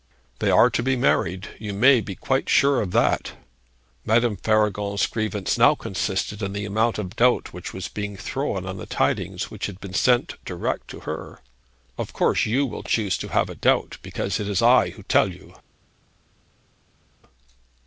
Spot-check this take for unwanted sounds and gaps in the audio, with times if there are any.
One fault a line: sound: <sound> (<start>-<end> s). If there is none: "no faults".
no faults